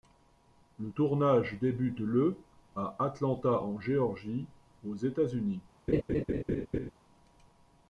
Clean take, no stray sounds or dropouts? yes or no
no